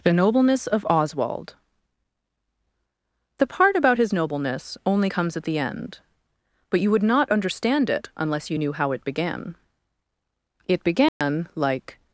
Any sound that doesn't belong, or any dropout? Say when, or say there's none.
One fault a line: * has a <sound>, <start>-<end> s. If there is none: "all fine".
* has a dropout, 11.1-11.2 s